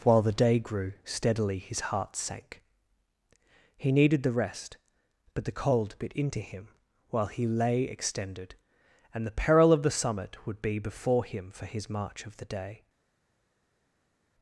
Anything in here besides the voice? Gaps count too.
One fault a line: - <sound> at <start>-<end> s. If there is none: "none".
none